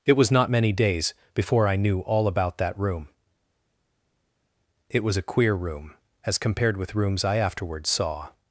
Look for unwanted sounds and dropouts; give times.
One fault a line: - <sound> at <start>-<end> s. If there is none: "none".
none